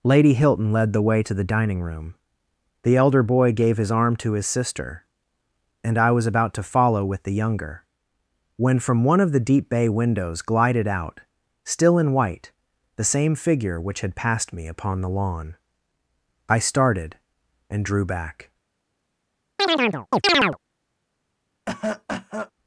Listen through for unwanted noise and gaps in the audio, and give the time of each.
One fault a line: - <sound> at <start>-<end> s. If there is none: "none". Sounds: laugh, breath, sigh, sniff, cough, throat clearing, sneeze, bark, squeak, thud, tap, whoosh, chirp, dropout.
- chirp at 19.6-20.6 s
- cough at 21.7-22.5 s